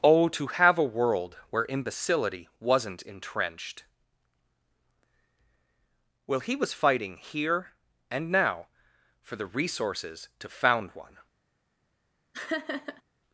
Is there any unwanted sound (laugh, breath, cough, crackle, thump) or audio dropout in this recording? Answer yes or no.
yes